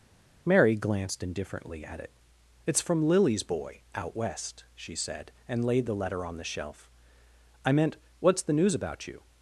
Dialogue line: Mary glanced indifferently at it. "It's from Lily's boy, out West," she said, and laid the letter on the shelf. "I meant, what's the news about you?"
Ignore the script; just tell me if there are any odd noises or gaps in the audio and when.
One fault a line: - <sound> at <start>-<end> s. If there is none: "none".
none